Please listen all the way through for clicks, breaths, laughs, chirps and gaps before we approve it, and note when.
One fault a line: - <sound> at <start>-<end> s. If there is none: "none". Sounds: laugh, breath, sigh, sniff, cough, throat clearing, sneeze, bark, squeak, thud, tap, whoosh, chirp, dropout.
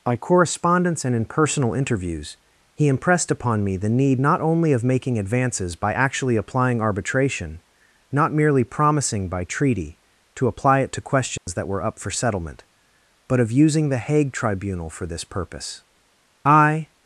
- dropout at 11.4-11.5 s